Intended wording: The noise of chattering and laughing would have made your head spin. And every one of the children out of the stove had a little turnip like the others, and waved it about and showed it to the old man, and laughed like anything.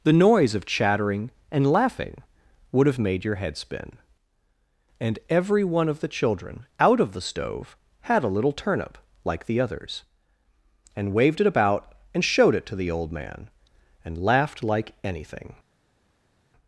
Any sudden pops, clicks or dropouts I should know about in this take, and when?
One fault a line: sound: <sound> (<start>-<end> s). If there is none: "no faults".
no faults